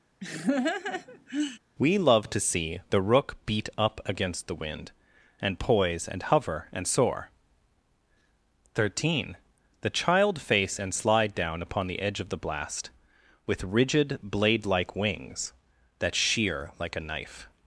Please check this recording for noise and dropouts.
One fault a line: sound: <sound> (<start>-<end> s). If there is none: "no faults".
sound: laugh (0.2-1.6 s)